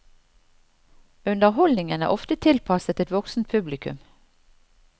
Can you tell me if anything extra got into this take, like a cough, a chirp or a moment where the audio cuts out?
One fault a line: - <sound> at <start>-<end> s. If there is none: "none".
none